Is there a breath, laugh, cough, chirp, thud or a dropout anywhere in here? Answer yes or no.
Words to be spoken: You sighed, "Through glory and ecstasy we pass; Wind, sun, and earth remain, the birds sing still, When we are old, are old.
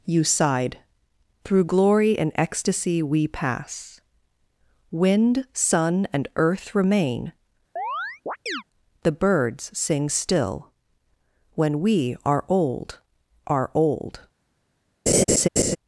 yes